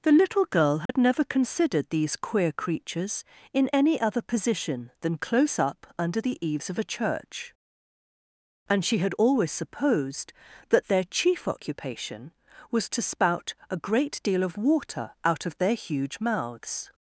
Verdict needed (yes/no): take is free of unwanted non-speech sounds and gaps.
no